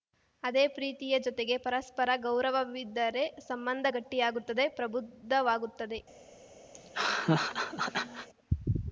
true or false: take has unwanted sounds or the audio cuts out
true